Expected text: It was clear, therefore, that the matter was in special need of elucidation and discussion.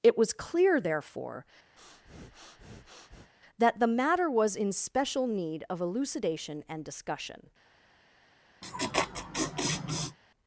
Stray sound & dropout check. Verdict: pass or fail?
fail